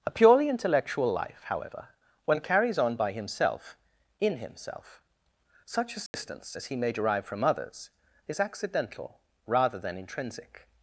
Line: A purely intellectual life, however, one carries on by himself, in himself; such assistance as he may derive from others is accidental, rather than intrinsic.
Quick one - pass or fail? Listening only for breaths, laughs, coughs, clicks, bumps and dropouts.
fail